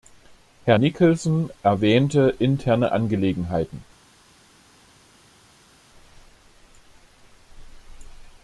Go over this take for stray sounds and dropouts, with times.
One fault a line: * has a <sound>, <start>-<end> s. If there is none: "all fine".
all fine